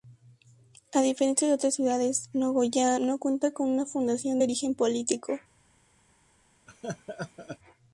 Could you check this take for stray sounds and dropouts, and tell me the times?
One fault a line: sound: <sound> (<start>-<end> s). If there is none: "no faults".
sound: laugh (6.7-7.6 s)